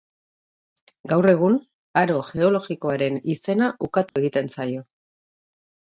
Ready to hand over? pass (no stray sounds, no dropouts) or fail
fail